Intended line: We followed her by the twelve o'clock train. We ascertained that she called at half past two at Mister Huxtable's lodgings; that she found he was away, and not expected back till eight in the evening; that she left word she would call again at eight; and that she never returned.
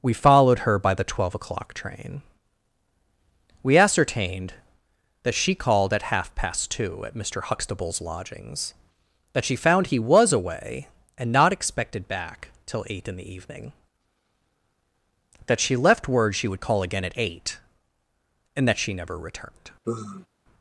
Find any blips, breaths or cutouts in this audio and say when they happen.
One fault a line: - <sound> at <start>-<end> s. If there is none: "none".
- sigh at 19.8-20.3 s